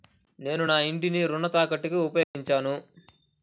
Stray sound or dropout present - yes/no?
yes